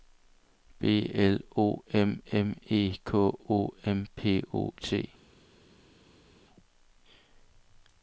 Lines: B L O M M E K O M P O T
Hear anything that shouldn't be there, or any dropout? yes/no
no